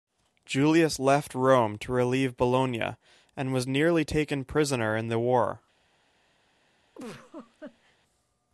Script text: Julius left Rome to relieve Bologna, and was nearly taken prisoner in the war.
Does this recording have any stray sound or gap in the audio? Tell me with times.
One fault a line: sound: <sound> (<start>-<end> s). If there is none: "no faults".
sound: laugh (6.9-8.0 s)